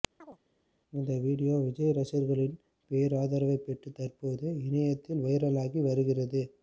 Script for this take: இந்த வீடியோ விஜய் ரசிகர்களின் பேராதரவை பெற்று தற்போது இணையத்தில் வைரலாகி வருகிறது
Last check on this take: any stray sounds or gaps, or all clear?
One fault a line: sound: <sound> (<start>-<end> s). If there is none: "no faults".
sound: chirp (0.2-0.4 s)